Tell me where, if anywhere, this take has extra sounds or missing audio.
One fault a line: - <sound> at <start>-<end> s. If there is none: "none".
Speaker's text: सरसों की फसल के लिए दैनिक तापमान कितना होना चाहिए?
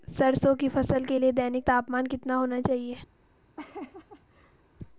- laugh at 3.6-4.6 s